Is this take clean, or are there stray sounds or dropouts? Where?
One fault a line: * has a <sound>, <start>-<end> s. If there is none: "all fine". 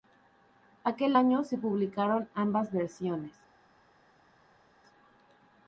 all fine